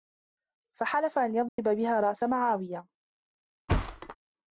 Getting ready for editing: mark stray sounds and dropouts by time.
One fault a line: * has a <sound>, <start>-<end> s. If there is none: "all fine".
* has a dropout, 1.5-1.6 s
* has a thud, 3.7-4.2 s